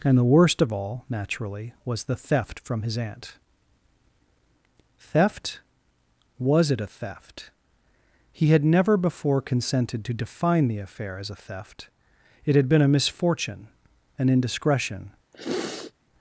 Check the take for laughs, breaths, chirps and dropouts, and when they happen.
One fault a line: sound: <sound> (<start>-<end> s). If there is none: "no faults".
sound: sniff (15.3-15.9 s)